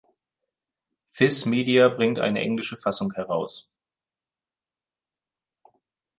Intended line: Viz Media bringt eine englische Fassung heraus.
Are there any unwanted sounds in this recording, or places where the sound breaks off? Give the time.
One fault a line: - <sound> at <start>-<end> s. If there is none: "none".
none